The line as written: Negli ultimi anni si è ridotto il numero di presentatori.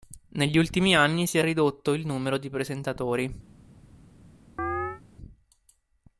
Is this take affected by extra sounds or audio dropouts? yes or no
yes